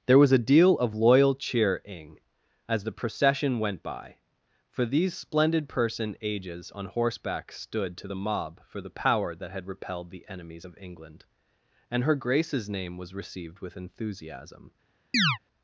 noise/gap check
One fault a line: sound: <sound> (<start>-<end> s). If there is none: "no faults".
sound: chirp (15.1-15.4 s)